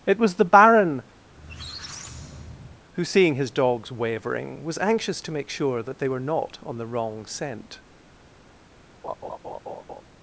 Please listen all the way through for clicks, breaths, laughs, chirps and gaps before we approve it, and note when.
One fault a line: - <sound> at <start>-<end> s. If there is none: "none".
- squeak at 1.3-2.8 s
- laugh at 9.0-10.0 s